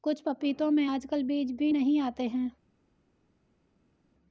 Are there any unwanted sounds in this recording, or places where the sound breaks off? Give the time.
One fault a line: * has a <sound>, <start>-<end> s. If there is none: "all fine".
all fine